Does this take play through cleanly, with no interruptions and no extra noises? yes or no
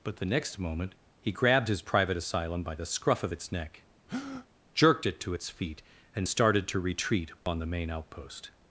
no